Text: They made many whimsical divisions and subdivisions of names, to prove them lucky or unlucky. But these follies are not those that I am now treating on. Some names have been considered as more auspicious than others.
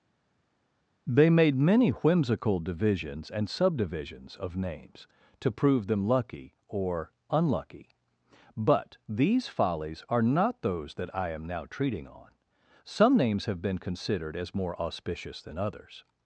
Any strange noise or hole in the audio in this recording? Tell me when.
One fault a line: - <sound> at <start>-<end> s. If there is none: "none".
none